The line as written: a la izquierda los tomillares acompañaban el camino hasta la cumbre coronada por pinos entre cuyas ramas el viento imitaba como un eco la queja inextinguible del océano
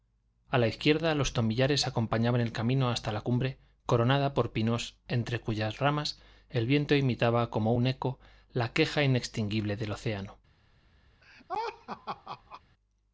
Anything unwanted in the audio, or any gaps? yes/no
yes